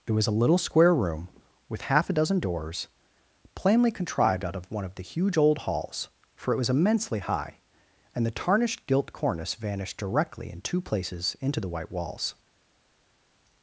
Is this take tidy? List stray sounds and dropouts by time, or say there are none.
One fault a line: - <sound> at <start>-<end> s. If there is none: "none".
none